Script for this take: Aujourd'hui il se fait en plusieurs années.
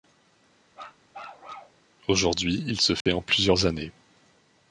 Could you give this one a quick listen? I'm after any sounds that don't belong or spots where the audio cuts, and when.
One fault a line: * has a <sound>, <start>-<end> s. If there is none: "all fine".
* has a bark, 0.7-1.8 s
* has a dropout, 3.0-3.1 s